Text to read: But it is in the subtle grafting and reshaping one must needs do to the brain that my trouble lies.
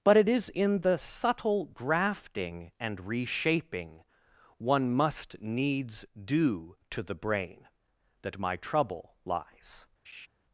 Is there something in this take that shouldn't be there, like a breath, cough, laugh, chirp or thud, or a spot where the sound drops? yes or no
yes